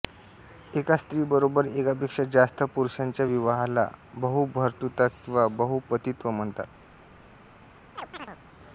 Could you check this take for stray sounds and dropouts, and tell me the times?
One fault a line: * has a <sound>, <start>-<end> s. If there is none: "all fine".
* has a chirp, 8.0-8.4 s